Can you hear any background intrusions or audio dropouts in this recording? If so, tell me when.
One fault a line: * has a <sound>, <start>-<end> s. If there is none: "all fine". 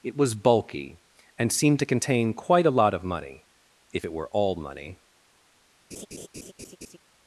* has a laugh, 5.9-7.0 s